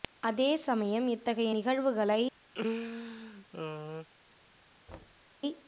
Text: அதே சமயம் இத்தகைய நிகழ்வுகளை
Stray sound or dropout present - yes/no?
yes